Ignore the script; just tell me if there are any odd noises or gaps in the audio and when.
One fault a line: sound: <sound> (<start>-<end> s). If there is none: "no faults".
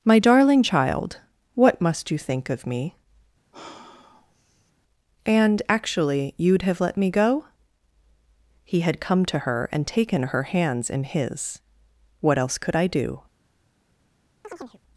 sound: sigh (3.5-4.7 s)
sound: chirp (14.4-14.8 s)